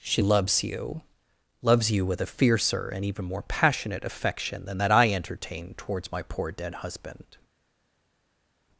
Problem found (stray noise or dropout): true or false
false